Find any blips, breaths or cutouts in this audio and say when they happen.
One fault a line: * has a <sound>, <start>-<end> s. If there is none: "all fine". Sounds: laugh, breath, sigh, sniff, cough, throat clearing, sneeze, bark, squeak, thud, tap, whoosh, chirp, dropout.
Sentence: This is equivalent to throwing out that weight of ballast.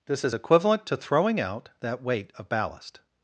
all fine